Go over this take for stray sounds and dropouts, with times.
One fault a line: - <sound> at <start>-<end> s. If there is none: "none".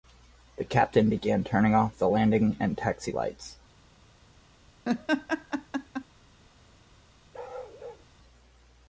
- laugh at 4.8-6.0 s
- bark at 7.3-8.1 s